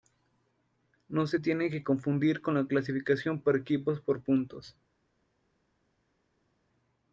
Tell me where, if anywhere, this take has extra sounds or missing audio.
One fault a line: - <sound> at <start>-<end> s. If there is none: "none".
none